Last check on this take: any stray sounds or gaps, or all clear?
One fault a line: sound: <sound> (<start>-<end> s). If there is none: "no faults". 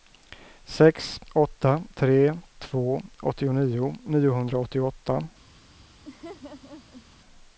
sound: laugh (6.1-7.1 s)